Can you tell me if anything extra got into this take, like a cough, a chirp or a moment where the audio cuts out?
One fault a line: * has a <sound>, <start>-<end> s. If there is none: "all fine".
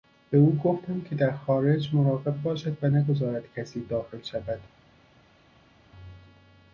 all fine